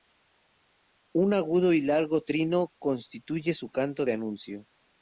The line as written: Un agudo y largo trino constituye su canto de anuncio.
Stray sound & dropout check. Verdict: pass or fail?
pass